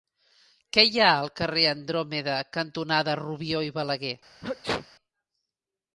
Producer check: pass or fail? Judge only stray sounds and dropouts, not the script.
fail